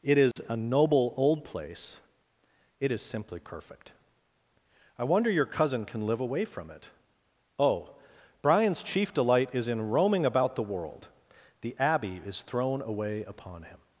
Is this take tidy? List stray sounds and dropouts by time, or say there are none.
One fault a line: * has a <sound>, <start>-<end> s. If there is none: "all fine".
* has a dropout, 0.3-0.4 s